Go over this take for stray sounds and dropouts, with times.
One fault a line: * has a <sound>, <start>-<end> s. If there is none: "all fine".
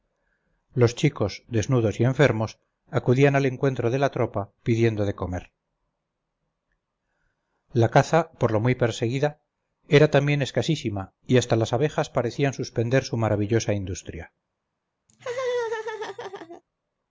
* has a laugh, 15.1-16.6 s